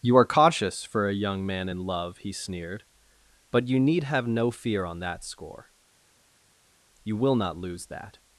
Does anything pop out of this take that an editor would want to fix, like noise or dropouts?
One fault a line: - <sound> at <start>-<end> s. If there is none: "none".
none